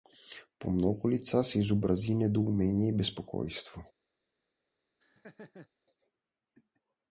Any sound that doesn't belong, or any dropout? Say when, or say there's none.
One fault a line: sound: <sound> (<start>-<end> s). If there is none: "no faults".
sound: laugh (5.0-5.7 s)